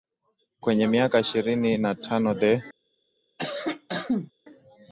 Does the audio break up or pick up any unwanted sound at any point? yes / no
yes